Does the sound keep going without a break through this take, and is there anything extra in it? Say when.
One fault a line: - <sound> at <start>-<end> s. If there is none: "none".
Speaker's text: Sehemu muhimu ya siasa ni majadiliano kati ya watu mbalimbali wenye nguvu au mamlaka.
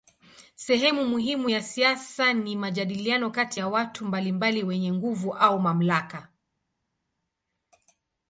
none